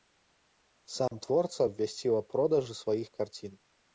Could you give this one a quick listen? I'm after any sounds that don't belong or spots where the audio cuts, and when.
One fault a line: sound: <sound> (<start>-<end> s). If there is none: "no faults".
sound: dropout (1.1-1.1 s)